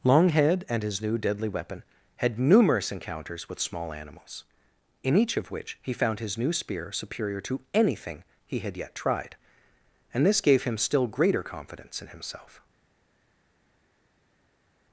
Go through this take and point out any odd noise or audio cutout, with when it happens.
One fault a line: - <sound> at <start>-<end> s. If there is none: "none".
none